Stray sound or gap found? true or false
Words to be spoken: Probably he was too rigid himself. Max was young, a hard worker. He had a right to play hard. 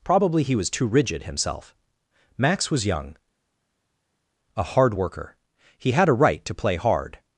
false